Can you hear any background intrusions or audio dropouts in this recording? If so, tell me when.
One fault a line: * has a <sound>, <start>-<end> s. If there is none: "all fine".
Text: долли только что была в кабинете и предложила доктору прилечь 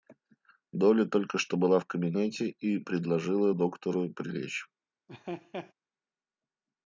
* has a laugh, 5.1-5.7 s